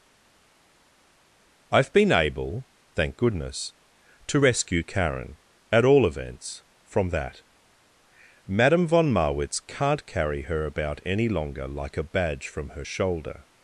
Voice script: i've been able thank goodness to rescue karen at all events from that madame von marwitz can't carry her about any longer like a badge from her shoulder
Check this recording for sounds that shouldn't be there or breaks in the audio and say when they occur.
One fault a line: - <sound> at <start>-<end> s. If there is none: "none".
none